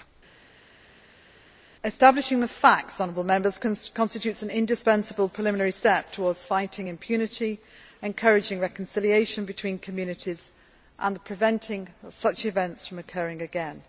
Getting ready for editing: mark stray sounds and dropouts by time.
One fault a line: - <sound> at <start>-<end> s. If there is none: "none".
none